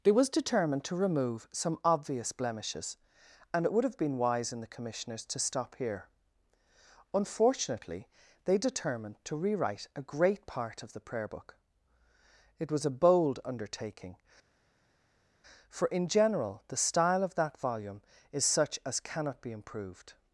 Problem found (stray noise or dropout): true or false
false